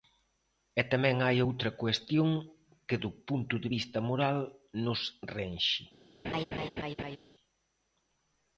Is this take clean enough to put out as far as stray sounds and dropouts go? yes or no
no